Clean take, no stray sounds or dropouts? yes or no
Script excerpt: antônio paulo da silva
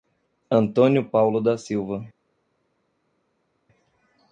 yes